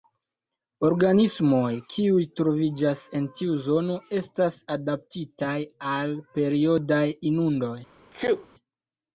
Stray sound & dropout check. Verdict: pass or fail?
fail